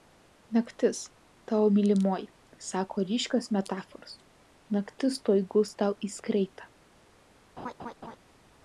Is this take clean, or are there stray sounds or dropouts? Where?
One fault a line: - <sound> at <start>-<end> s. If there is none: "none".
- laugh at 7.6-8.2 s